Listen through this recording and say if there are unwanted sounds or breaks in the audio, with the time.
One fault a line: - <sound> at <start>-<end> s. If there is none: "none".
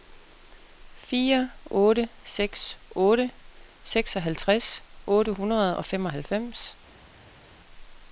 none